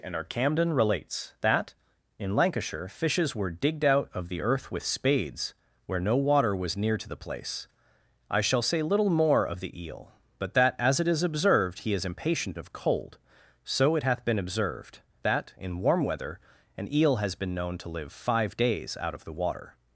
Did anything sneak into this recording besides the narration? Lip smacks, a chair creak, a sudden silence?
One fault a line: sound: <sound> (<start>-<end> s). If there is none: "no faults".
no faults